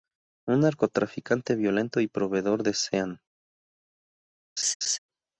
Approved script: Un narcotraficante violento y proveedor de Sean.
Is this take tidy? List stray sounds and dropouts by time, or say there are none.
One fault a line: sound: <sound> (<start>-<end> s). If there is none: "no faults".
sound: laugh (4.6-5.0 s)